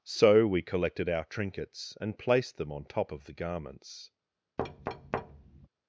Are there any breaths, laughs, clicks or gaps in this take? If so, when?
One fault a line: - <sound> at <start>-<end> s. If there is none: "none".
- thud at 4.6-5.7 s